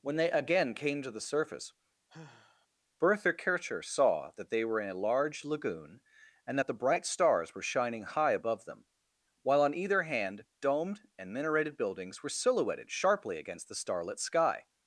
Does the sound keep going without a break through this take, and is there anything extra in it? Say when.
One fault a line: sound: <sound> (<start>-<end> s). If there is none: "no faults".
sound: sigh (2.1-2.7 s)